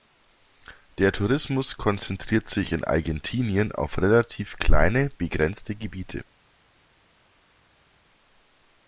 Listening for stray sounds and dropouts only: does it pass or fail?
pass